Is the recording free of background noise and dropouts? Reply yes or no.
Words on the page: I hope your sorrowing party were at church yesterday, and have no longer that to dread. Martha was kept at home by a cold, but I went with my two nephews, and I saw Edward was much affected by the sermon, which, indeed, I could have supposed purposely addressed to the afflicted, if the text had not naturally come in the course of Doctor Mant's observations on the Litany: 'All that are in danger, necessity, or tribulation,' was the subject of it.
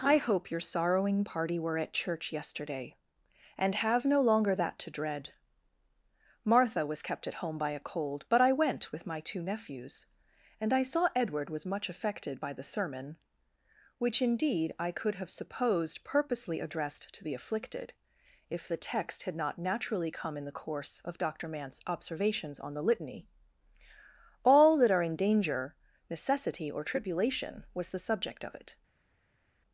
yes